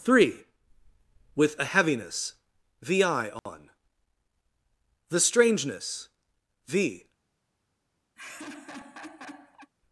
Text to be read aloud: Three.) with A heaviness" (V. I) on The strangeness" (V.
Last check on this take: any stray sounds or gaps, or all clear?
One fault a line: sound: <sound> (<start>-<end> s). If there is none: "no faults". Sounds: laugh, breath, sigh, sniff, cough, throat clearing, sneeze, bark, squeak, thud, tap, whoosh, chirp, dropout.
sound: dropout (3.4-3.5 s)
sound: laugh (8.2-9.7 s)